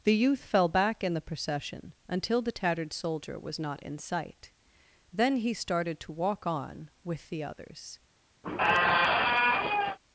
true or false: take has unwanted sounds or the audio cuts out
true